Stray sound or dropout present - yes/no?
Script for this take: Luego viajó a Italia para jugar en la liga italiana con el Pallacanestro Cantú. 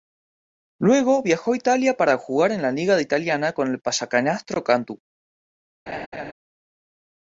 yes